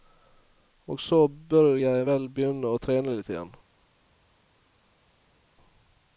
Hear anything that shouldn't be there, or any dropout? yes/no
no